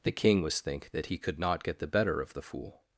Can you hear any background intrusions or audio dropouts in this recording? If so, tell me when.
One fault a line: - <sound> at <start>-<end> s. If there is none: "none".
none